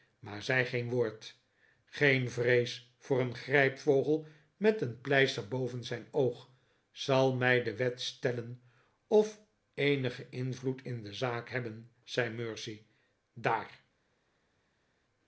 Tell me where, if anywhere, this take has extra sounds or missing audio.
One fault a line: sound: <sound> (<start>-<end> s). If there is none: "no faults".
no faults